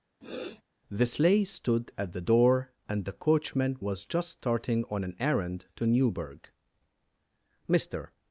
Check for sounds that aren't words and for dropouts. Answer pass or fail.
fail